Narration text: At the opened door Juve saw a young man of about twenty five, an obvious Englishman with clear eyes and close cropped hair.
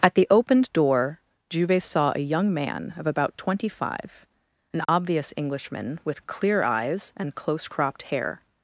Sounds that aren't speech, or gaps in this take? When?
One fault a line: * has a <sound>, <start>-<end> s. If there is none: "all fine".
* has a dropout, 4.8-4.9 s